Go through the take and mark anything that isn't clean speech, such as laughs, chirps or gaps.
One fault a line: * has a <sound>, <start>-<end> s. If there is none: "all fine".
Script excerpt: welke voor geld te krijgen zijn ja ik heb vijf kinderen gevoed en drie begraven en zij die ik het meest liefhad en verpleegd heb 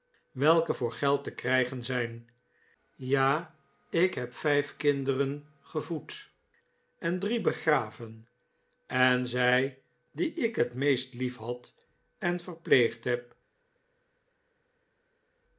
all fine